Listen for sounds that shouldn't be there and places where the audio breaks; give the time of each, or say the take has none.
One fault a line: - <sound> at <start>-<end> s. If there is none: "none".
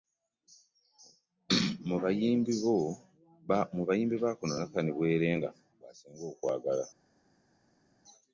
none